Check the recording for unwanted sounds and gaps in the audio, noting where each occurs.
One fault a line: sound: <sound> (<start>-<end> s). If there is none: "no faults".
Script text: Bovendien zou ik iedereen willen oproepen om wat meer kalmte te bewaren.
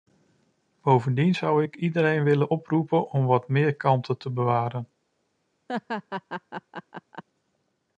sound: laugh (5.7-7.2 s)